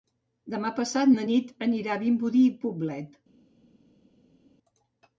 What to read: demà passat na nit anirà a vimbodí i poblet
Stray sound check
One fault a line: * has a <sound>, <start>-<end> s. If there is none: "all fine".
all fine